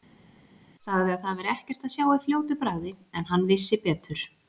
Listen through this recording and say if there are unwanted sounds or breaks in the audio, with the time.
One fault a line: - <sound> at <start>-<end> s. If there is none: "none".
none